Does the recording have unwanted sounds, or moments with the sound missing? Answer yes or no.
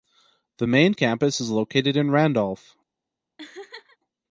yes